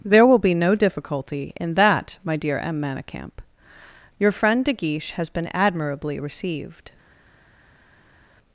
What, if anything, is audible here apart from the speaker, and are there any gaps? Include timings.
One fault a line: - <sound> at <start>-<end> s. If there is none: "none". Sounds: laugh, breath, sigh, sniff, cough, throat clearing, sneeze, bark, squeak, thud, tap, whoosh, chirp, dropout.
none